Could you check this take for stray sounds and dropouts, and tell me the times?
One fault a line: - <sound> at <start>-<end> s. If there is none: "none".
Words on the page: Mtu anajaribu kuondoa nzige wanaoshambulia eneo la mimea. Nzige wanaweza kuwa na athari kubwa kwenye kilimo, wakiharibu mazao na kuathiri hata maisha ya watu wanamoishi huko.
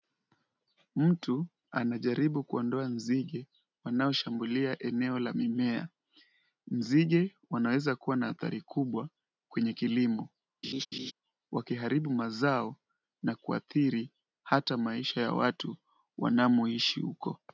- laugh at 10.6-11.1 s